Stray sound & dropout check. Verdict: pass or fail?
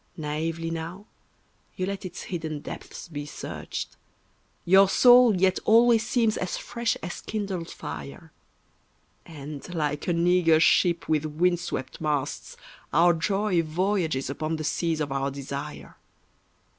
pass